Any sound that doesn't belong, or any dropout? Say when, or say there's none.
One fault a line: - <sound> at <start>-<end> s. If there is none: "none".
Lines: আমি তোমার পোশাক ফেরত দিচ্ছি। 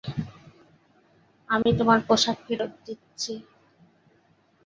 - dropout at 1.6-1.7 s